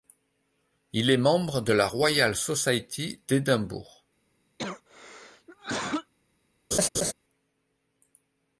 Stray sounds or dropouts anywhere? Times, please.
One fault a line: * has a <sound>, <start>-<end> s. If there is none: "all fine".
* has a cough, 4.6-6.1 s
* has a laugh, 6.7-7.1 s